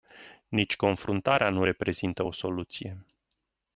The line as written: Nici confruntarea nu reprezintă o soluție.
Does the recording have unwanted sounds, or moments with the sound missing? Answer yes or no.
no